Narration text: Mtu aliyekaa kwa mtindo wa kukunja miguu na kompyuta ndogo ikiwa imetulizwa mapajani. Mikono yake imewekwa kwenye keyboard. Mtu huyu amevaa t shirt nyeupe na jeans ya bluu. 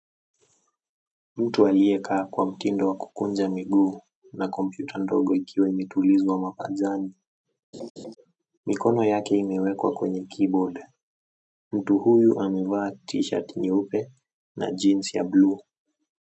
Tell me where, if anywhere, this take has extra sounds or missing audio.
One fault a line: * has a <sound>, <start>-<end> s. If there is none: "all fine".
* has a laugh, 7.7-8.2 s